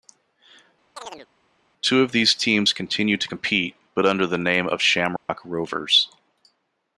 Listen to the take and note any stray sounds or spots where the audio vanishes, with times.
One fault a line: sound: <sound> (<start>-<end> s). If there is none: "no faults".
sound: chirp (1.0-1.3 s)
sound: dropout (5.2-5.3 s)